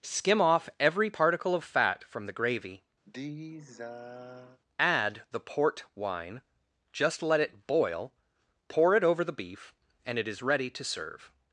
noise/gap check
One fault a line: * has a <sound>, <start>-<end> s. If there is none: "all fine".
* has a sigh, 3.1-4.6 s